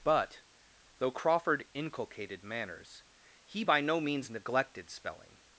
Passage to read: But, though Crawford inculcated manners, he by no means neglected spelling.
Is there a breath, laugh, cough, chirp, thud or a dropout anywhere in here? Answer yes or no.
no